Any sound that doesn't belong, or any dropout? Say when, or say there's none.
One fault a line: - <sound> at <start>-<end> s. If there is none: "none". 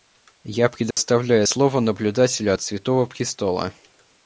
- dropout at 0.9-1.0 s